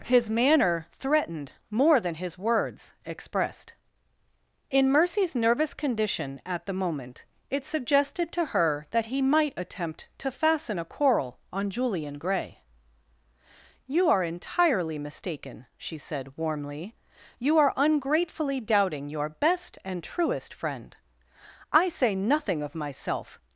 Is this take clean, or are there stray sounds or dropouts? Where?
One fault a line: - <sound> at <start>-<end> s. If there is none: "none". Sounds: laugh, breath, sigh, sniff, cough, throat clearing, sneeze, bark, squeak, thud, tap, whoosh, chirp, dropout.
none